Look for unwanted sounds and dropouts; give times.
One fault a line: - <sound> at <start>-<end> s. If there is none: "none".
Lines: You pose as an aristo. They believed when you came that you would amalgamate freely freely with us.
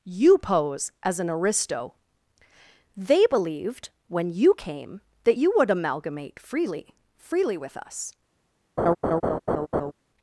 - laugh at 8.8-9.9 s